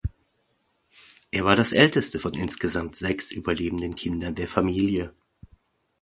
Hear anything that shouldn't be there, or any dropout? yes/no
no